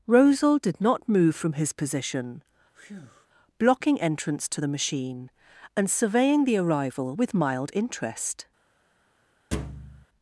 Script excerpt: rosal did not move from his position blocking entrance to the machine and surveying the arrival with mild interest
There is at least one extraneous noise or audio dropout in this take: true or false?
true